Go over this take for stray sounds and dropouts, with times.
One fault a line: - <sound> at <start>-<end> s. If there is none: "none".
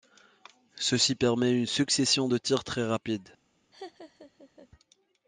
- laugh at 3.7-4.7 s